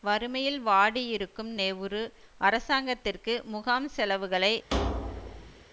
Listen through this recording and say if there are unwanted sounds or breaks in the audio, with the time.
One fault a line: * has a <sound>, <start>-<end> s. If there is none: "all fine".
* has a thud, 4.7-5.7 s